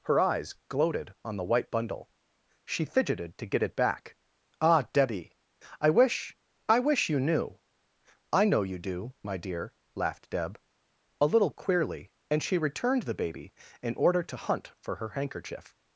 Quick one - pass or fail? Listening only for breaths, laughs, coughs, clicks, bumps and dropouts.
pass